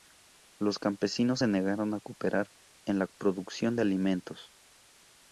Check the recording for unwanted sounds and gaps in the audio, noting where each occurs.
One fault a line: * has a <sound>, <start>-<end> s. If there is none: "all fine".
all fine